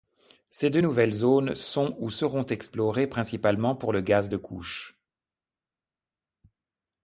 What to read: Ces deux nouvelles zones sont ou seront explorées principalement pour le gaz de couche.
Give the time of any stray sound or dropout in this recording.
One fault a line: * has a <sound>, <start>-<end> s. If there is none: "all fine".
all fine